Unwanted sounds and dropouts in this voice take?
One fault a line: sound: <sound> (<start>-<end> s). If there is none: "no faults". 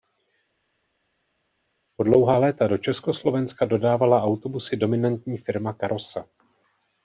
no faults